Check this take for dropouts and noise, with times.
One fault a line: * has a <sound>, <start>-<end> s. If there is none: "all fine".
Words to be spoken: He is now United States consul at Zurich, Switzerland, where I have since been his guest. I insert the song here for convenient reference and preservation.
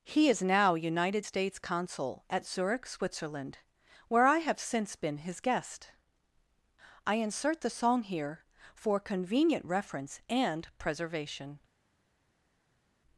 all fine